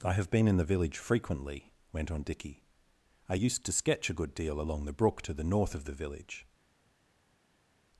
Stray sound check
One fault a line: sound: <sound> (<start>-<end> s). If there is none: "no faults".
no faults